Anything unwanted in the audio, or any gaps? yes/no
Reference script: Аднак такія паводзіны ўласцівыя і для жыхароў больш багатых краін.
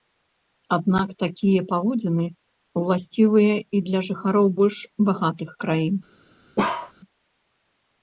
yes